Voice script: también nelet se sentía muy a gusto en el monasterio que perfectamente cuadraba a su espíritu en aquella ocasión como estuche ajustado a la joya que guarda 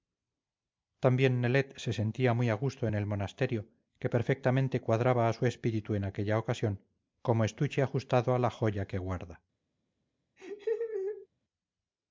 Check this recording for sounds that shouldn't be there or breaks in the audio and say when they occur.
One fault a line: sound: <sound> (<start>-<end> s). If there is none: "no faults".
sound: laugh (10.4-11.3 s)